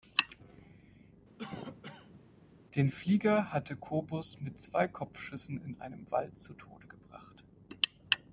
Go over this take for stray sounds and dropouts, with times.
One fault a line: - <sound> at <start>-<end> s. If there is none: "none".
- cough at 1.4-2.3 s